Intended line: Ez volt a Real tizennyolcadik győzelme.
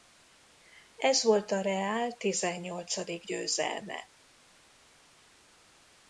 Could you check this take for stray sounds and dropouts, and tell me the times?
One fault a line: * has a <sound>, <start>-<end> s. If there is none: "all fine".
all fine